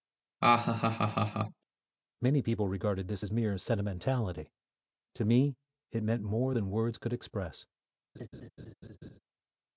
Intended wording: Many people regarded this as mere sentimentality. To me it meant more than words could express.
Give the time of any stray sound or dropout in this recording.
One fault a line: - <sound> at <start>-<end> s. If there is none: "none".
- laugh at 0.4-1.6 s
- laugh at 8.1-9.2 s